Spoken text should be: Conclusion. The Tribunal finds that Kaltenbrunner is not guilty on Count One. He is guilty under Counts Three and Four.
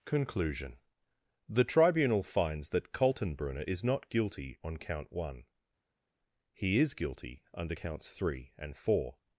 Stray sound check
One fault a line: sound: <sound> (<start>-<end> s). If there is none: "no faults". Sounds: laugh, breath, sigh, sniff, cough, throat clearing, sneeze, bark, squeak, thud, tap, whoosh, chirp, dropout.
no faults